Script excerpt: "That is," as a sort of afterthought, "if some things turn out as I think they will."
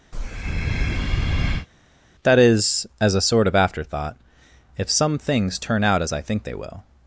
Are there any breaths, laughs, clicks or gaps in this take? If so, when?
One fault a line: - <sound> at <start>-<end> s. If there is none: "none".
- breath at 0.1-1.7 s